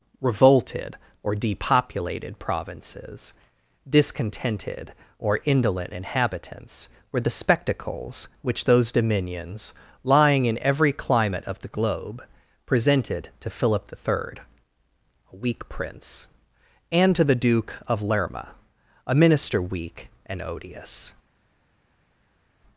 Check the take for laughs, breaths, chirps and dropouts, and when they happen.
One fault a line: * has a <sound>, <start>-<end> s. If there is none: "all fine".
all fine